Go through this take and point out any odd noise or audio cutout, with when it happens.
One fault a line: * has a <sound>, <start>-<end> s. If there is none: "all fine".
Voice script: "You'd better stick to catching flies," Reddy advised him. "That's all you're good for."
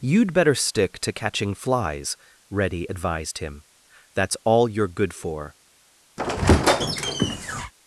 * has a squeak, 6.2-7.7 s